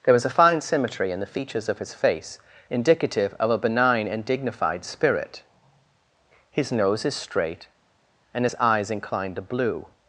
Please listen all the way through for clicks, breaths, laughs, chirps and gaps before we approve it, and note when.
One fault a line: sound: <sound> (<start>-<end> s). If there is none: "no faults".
no faults